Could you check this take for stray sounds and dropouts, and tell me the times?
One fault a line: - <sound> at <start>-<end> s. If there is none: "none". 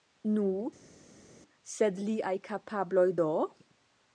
none